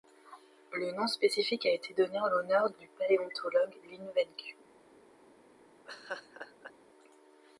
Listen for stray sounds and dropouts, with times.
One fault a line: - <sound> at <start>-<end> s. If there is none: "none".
- laugh at 5.9-6.7 s